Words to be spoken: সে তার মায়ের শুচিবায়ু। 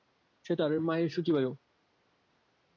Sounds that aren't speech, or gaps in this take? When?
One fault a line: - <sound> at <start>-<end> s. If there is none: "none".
none